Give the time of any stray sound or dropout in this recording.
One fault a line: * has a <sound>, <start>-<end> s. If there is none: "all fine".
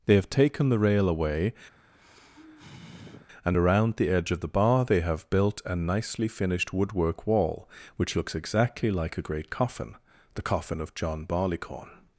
* has a sigh, 1.7-3.3 s